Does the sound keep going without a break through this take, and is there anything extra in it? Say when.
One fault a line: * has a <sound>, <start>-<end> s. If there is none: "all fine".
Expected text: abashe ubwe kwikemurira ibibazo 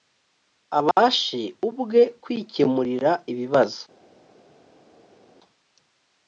all fine